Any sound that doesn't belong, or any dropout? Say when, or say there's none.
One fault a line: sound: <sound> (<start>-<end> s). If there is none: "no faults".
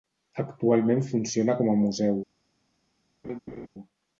sound: laugh (3.2-3.7 s)